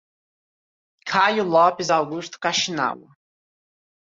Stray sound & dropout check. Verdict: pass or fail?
pass